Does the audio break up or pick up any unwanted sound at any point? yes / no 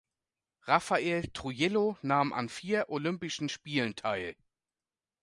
no